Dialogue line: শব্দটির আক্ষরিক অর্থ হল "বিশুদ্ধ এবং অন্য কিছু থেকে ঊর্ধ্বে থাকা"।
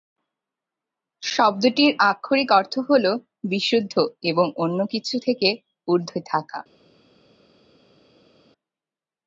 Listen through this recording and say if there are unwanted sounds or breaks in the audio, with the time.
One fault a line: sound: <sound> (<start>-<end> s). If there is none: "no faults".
no faults